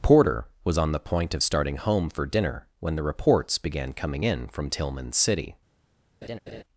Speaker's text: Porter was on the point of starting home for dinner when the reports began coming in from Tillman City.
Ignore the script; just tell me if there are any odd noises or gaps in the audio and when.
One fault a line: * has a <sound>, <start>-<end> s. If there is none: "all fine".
* has a laugh, 6.2-6.6 s